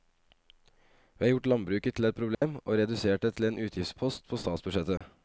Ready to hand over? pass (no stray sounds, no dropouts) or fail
fail